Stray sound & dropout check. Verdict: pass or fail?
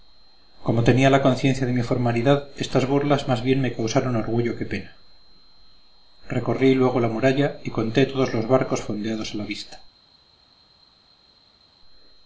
pass